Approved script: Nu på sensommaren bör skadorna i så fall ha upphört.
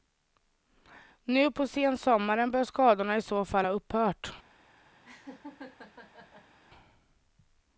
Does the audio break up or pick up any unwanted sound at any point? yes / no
yes